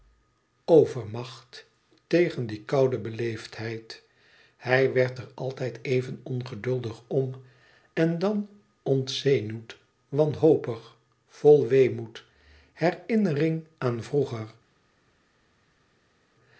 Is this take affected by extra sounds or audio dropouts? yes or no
no